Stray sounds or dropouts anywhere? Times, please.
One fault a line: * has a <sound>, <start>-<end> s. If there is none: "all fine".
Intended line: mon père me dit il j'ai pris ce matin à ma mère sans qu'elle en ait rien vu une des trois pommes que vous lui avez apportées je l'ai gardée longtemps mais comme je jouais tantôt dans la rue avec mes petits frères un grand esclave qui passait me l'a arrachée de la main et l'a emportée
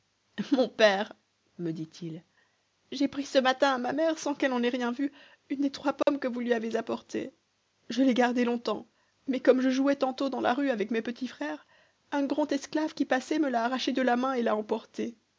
* has a dropout, 6.0-6.1 s